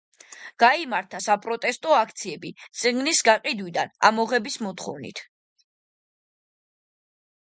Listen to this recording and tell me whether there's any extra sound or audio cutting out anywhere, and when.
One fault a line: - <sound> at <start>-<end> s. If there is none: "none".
none